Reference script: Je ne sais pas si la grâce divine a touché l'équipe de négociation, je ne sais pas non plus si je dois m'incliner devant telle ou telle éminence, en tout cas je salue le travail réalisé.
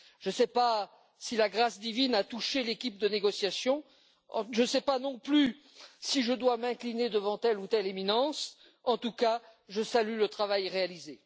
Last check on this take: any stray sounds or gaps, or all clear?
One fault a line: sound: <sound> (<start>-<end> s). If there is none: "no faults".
no faults